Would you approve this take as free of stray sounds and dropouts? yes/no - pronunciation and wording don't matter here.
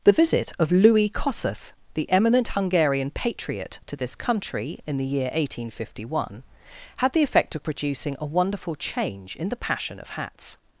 yes